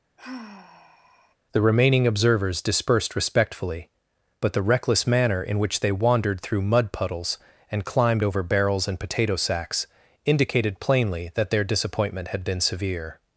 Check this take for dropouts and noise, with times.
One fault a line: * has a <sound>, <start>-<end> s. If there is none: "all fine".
* has a sigh, 0.2-1.4 s